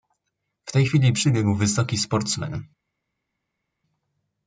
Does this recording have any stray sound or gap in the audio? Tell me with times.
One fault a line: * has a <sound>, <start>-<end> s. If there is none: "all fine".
all fine